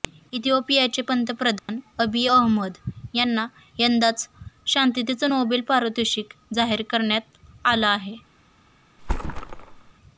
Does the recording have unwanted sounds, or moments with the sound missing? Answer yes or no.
yes